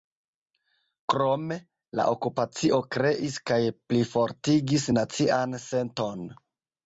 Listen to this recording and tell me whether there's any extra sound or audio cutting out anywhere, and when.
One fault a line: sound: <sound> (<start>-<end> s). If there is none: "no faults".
no faults